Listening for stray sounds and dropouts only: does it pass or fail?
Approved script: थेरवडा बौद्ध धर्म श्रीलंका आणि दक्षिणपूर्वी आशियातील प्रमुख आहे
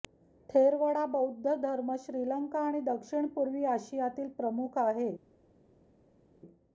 pass